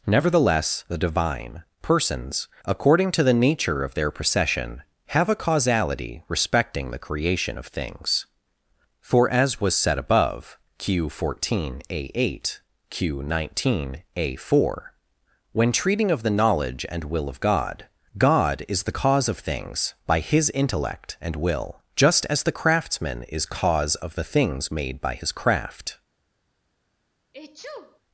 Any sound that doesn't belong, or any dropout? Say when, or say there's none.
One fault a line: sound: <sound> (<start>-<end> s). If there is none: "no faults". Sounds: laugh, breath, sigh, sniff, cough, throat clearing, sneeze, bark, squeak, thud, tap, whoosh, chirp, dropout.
sound: sneeze (27.3-28.0 s)